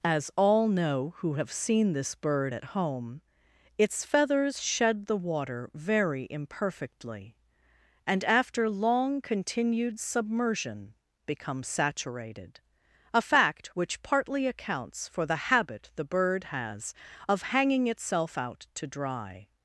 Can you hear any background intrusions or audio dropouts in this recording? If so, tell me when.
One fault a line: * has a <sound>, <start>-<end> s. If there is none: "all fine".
all fine